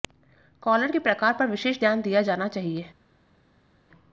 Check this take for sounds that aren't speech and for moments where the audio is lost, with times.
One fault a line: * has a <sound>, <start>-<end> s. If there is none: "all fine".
all fine